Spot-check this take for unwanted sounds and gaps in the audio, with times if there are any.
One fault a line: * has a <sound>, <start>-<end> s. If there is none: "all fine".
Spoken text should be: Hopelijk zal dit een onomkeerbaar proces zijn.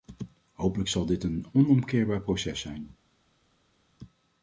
all fine